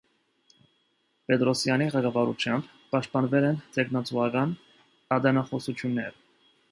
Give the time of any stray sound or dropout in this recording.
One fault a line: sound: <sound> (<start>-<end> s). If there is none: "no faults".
no faults